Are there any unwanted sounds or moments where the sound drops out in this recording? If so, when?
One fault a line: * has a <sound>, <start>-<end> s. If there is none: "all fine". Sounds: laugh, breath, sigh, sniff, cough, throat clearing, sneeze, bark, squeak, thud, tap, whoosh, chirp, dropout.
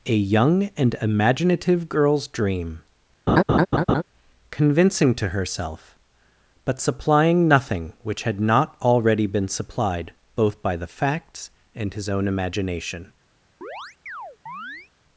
* has a laugh, 3.3-4.0 s
* has a chirp, 13.6-14.9 s